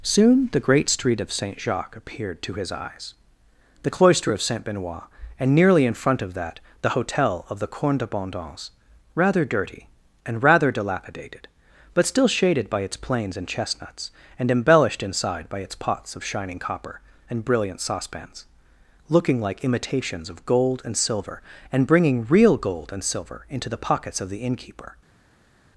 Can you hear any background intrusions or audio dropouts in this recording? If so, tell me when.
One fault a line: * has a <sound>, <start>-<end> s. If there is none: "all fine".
all fine